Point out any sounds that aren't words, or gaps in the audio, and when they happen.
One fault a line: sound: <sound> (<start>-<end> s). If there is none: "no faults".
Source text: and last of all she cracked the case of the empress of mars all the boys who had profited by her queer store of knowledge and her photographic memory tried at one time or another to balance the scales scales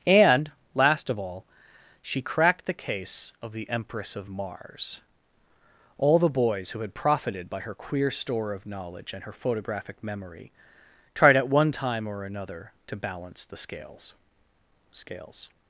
no faults